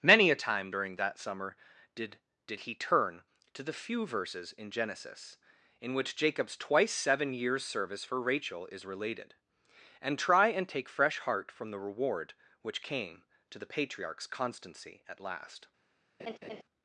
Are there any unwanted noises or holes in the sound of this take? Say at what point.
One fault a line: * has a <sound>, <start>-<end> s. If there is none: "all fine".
* has a laugh, 16.2-16.6 s